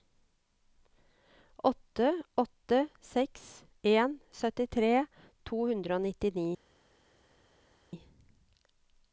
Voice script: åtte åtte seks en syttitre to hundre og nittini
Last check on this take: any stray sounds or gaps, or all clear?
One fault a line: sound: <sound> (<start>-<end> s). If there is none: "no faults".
no faults